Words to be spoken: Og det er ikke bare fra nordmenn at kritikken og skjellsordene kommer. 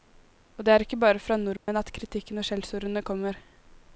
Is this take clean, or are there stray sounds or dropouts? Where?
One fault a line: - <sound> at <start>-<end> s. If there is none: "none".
- dropout at 1.6-1.7 s